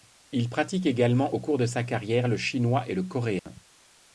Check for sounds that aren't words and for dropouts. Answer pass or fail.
fail